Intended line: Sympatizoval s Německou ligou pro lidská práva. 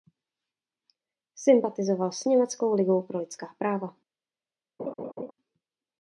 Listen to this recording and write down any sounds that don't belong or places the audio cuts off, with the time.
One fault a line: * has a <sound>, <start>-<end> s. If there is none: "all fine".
* has a laugh, 4.8-5.3 s